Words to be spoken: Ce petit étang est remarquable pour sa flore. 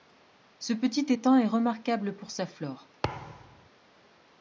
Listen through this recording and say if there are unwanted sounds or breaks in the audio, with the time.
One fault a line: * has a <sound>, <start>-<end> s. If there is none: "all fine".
* has a thud, 3.0-3.7 s